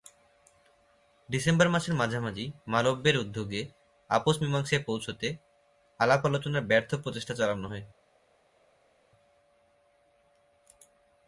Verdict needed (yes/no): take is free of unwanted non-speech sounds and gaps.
yes